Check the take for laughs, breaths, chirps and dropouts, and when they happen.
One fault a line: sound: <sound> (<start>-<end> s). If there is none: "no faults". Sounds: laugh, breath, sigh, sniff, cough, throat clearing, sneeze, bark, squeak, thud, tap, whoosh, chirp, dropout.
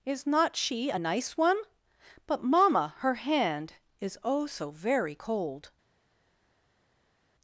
no faults